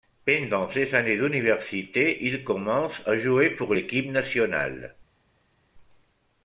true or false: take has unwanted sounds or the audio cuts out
false